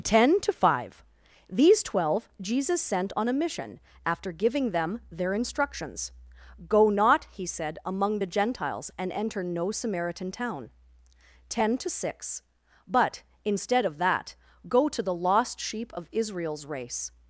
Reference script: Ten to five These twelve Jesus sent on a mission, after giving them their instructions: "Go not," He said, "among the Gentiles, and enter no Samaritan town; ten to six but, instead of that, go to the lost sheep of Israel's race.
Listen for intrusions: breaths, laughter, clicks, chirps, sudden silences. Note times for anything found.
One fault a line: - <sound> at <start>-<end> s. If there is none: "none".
none